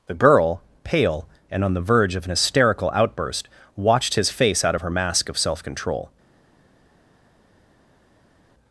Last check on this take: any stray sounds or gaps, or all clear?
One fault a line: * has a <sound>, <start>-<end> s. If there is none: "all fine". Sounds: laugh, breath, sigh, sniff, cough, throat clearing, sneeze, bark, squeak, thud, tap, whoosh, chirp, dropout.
all fine